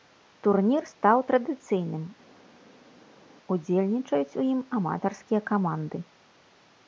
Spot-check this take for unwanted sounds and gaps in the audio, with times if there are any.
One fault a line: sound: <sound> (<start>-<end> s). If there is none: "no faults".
no faults